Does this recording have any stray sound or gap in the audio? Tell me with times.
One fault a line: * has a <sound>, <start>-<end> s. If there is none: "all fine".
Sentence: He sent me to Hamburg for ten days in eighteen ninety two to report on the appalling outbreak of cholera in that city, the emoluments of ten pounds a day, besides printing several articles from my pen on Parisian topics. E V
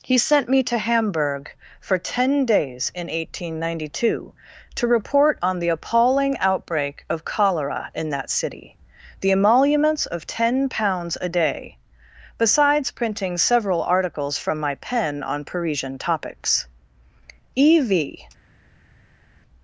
all fine